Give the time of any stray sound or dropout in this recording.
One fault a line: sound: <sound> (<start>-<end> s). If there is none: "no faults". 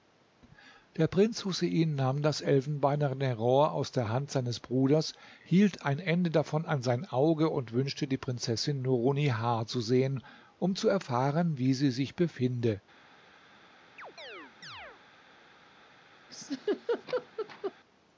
sound: chirp (14.0-15.0 s)
sound: laugh (16.3-17.7 s)